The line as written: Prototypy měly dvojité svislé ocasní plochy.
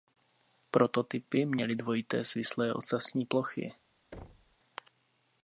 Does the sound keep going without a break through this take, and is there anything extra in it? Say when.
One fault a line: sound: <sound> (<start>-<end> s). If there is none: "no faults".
sound: thud (4.1-4.6 s)